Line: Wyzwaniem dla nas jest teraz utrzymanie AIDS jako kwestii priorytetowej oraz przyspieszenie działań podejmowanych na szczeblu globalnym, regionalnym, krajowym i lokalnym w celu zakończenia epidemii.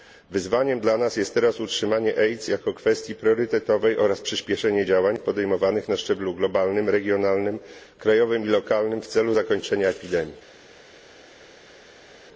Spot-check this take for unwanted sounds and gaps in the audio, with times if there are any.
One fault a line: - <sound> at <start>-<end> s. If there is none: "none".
none